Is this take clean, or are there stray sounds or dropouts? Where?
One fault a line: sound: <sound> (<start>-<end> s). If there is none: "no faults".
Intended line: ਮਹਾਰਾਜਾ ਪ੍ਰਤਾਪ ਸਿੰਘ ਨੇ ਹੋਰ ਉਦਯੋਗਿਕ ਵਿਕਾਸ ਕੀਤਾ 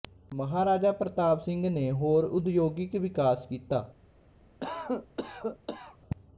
sound: cough (4.6-6.0 s)